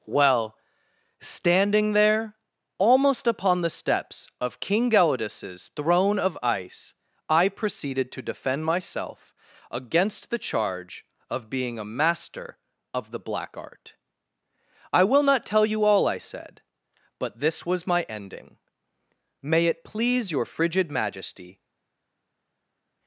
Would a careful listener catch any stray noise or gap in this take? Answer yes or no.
no